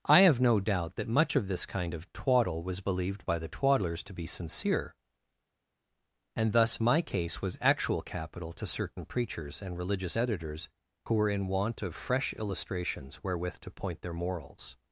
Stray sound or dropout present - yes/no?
no